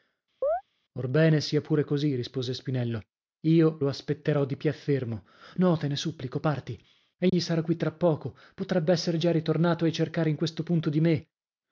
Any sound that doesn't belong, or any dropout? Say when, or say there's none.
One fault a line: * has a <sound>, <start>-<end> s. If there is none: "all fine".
* has a chirp, 0.4-0.6 s
* has a dropout, 7.3-7.3 s